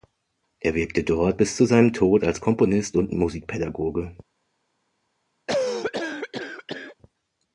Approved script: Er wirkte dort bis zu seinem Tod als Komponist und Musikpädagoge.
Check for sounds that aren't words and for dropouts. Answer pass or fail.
fail